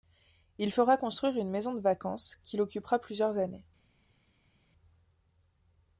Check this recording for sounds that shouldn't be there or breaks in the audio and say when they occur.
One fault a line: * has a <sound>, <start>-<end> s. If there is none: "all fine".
all fine